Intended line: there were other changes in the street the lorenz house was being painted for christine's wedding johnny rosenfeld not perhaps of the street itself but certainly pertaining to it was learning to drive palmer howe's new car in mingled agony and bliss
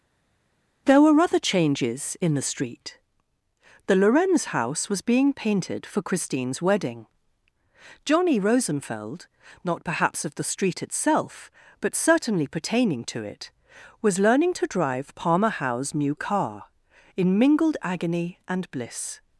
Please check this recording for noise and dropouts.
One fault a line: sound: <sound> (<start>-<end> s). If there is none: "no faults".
no faults